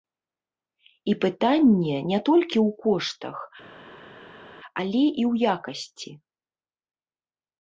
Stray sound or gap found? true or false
false